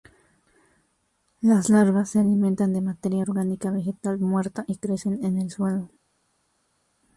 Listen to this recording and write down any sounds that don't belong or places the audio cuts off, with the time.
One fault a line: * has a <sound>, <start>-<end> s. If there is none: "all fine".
all fine